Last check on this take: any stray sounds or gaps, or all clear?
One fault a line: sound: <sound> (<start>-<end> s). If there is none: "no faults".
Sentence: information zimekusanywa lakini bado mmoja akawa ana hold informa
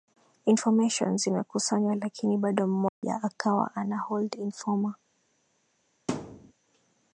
sound: dropout (2.9-3.0 s)
sound: thud (6.1-6.5 s)